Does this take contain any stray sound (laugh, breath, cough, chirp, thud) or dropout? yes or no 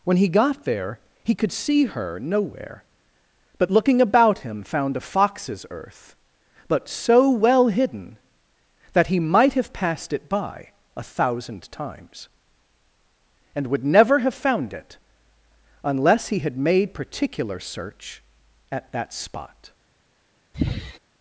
yes